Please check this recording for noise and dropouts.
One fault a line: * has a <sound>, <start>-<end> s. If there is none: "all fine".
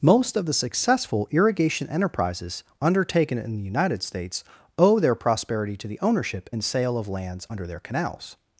all fine